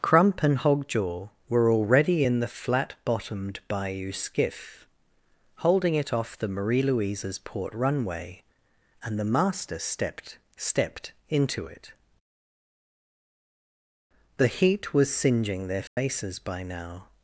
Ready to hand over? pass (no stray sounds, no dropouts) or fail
fail